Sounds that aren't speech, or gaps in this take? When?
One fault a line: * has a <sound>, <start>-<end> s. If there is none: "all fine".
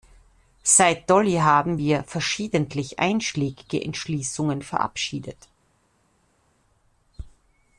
all fine